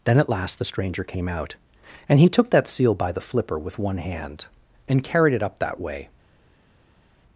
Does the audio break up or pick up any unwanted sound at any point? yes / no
no